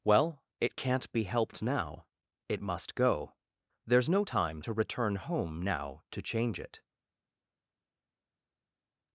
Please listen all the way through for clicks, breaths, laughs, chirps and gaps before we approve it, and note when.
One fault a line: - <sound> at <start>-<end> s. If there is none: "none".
none